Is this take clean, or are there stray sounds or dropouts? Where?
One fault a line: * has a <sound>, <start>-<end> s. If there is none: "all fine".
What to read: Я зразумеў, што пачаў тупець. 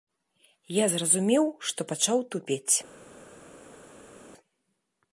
all fine